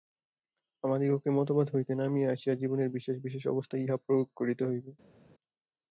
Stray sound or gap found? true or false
false